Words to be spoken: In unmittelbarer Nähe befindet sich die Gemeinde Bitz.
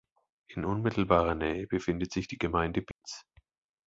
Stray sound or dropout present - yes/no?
yes